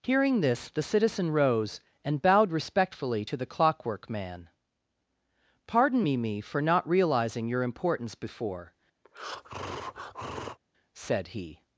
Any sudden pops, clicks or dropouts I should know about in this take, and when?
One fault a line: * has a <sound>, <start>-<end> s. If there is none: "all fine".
* has a breath, 9.0-10.6 s